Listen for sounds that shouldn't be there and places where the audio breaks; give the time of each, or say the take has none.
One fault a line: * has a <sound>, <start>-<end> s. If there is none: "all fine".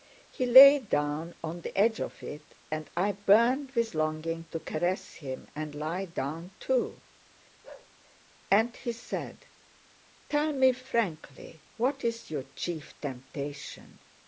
* has a bark, 7.6-7.9 s